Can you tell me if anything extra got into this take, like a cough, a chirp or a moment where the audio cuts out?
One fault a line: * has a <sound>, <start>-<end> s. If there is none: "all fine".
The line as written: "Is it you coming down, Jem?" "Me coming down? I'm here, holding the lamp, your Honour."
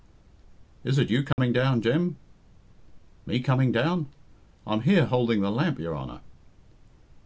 * has a dropout, 1.3-1.4 s